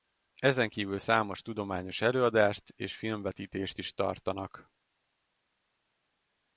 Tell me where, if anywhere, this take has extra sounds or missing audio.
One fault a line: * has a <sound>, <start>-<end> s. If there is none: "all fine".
all fine